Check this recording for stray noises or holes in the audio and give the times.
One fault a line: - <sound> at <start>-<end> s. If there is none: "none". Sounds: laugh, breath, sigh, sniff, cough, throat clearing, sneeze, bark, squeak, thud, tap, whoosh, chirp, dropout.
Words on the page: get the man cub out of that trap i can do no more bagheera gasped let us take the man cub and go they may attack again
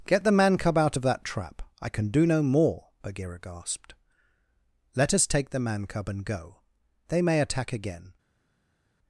none